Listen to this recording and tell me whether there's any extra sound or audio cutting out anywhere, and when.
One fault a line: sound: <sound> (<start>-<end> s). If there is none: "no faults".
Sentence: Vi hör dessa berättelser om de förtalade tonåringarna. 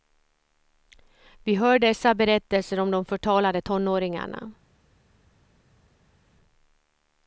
no faults